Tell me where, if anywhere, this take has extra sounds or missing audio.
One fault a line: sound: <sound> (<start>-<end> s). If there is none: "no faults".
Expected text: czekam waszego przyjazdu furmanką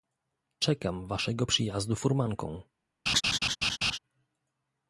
sound: laugh (3.1-4.0 s)